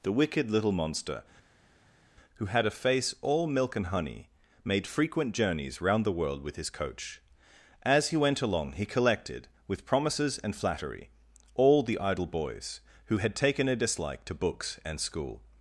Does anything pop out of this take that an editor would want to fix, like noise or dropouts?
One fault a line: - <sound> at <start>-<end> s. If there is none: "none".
none